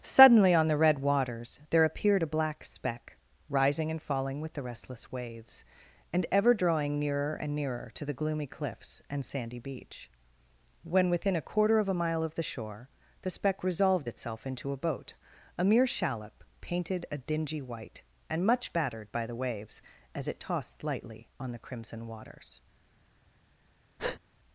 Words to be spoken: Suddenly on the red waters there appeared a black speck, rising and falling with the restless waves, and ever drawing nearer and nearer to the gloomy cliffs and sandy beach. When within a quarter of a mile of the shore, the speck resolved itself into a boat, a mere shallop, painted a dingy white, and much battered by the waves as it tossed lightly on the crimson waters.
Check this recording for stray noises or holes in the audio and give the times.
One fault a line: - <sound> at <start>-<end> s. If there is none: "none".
- breath at 24.0-24.2 s